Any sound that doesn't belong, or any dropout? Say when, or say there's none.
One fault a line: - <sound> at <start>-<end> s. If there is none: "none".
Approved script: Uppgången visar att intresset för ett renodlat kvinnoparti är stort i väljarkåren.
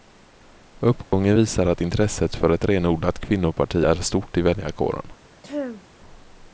- dropout at 1.0-1.1 s
- throat clearing at 5.4-5.9 s